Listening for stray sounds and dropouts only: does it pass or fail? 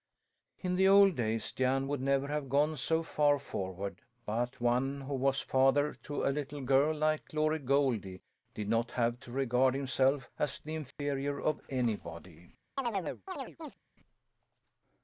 fail